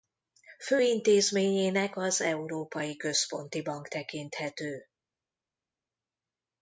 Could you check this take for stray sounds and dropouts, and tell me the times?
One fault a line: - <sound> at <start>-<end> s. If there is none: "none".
none